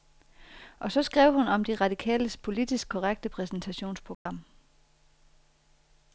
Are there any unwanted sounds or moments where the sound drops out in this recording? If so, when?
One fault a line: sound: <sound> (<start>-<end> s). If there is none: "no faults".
sound: dropout (4.1-4.3 s)